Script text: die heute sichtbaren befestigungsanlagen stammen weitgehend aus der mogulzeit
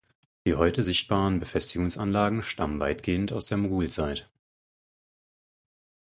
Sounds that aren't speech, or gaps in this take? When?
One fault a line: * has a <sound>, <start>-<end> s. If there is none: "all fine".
all fine